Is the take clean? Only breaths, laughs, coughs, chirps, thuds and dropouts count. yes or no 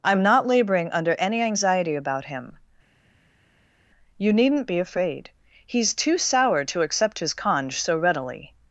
yes